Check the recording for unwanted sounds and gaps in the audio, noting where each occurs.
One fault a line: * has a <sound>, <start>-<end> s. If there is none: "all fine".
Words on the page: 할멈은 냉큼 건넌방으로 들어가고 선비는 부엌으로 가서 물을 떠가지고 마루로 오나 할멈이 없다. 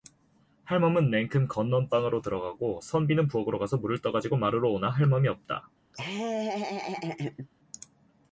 * has a laugh, 5.9-7.5 s